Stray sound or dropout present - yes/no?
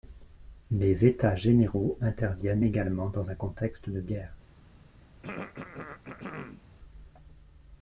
yes